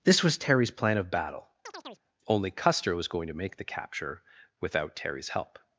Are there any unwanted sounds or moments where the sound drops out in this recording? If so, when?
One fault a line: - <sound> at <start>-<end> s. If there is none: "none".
- chirp at 1.7-2.1 s